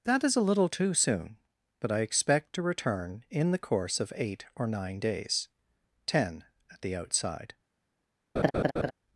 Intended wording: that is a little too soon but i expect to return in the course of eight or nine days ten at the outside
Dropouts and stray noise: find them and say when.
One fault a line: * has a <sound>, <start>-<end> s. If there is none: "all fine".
* has a laugh, 8.4-8.9 s